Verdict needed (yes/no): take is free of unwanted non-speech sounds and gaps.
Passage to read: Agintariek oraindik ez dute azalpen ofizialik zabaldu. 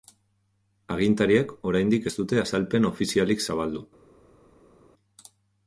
yes